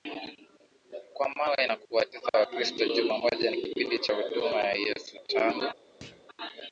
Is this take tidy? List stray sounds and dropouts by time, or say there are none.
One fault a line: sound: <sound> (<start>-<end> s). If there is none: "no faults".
sound: thud (6.0-6.3 s)